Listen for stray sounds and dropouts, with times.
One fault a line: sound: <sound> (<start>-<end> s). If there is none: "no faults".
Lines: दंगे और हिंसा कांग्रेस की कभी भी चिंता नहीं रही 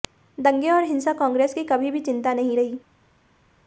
no faults